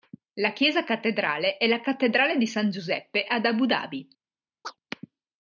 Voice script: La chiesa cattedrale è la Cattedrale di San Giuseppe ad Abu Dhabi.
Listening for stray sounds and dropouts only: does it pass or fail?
fail